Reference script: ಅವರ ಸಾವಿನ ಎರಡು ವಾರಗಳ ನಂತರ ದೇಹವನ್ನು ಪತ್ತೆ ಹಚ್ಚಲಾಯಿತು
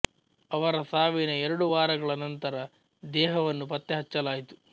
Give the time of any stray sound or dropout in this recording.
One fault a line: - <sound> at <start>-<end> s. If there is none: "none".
none